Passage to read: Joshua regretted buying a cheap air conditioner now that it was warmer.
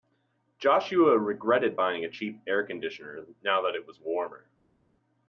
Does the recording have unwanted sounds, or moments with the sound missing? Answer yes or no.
no